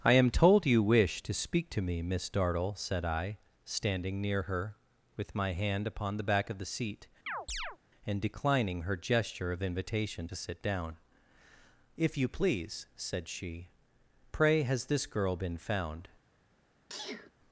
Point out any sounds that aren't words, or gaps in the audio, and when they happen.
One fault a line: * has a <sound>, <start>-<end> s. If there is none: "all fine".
* has a chirp, 7.3-7.8 s
* has a sneeze, 16.9-17.3 s